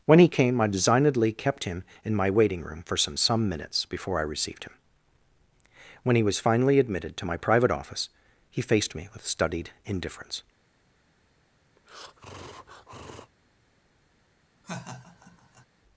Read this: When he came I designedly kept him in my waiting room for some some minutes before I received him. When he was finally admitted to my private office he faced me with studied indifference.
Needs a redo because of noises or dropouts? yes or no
yes